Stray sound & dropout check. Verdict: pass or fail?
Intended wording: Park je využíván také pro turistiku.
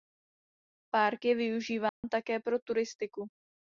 fail